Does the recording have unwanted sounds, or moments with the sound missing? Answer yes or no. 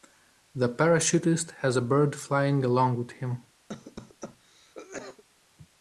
yes